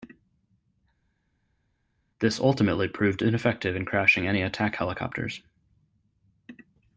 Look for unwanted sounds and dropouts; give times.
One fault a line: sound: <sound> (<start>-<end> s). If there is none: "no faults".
no faults